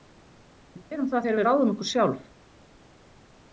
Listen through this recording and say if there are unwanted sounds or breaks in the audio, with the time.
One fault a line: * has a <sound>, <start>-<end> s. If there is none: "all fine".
all fine